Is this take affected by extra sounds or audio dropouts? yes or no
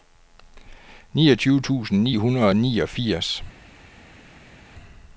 no